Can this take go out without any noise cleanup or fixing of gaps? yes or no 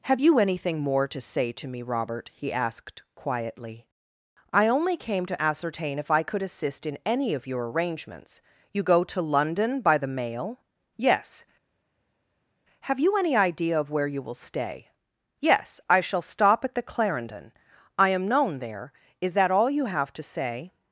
yes